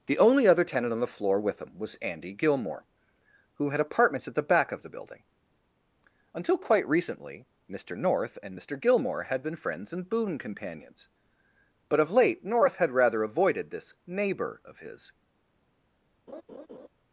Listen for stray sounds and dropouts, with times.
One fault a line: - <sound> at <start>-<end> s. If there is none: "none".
- laugh at 16.3-16.9 s